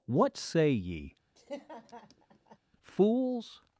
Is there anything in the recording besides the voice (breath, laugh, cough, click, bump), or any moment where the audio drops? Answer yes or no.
yes